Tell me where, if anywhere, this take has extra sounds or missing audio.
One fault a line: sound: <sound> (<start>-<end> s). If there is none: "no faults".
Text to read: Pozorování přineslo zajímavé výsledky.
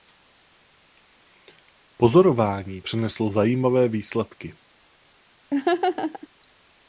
sound: laugh (5.5-6.3 s)